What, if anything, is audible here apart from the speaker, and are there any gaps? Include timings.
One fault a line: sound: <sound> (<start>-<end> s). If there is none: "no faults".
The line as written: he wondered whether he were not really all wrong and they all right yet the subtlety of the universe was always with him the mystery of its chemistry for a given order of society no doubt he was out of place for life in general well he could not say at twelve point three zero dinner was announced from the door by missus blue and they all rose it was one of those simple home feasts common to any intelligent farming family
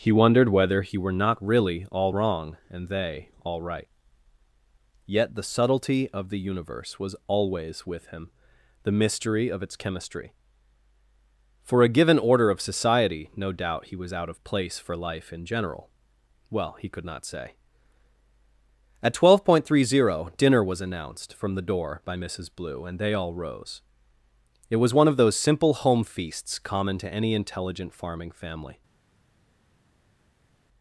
no faults